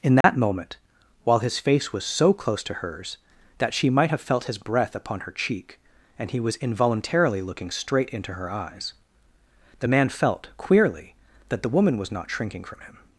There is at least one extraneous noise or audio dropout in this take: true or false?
true